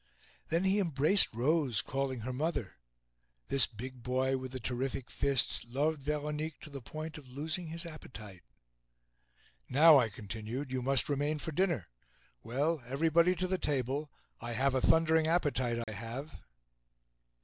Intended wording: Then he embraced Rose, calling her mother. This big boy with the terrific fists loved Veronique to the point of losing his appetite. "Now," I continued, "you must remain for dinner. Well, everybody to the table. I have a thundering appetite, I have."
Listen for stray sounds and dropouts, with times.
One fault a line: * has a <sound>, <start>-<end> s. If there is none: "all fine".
* has a dropout, 15.8-15.9 s